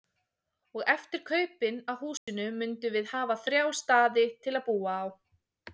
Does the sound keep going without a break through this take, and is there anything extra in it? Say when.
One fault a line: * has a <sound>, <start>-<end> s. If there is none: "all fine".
* has a dropout, 2.2-2.3 s